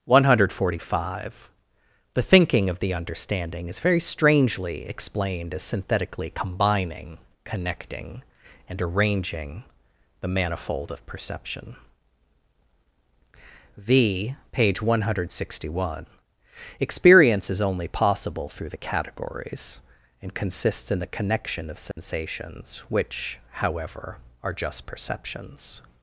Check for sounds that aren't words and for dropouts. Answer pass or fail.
fail